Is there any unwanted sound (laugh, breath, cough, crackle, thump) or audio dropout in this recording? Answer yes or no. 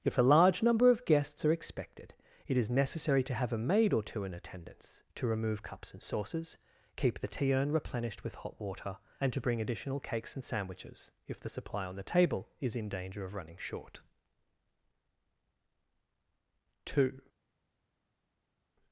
no